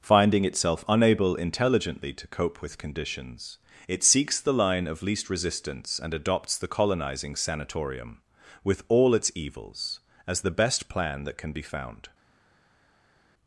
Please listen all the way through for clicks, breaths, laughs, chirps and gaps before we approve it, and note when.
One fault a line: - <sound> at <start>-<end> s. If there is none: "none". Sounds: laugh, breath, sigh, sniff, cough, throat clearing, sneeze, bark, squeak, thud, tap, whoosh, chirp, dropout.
none